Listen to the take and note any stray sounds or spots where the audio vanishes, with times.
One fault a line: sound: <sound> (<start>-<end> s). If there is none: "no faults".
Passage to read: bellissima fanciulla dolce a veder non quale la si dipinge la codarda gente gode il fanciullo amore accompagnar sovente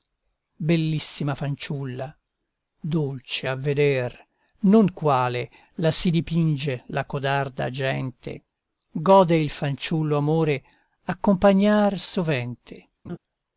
sound: laugh (13.0-13.2 s)